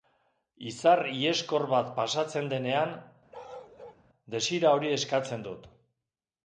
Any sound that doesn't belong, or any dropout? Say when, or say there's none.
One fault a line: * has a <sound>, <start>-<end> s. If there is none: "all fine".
* has a bark, 3.3-4.0 s